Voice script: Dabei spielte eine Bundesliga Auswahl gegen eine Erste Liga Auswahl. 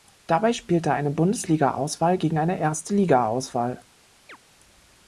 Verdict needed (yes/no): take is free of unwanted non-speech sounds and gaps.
no